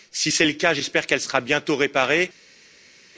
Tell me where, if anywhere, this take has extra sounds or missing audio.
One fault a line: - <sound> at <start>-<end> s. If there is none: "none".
none